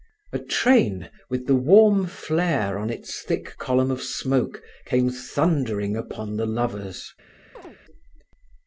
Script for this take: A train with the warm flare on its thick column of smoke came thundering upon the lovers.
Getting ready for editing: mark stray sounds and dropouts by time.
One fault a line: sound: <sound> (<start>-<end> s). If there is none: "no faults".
sound: chirp (7.5-7.8 s)